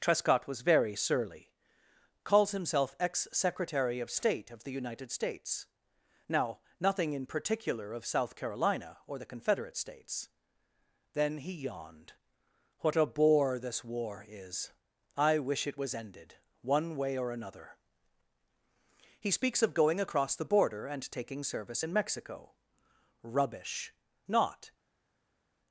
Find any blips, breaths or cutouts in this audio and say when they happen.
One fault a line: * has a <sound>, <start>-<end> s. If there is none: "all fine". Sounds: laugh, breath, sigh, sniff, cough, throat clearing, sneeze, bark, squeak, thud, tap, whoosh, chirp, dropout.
all fine